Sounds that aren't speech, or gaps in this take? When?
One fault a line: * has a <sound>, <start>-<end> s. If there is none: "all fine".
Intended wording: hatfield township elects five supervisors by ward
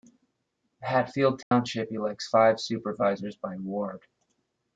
* has a dropout, 1.4-1.5 s